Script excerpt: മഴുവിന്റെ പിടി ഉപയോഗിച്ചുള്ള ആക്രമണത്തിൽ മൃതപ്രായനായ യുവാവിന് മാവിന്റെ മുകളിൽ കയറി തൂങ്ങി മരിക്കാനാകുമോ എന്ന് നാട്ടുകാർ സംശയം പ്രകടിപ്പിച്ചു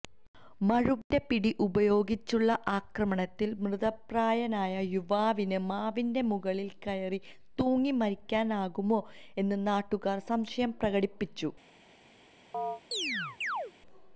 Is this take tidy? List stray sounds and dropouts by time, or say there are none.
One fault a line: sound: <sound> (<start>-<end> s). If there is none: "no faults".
sound: chirp (12.5-13.7 s)